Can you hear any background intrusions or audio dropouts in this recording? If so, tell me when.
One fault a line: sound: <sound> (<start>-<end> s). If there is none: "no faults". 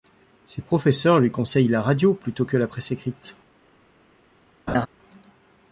sound: laugh (4.7-4.9 s)